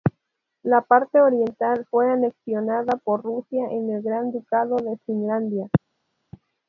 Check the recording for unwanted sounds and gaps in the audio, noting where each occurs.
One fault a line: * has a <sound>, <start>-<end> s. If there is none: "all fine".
all fine